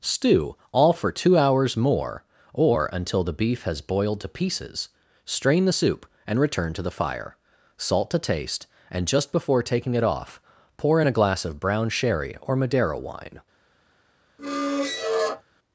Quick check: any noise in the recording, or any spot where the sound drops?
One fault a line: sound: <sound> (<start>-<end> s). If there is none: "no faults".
sound: squeak (14.4-15.4 s)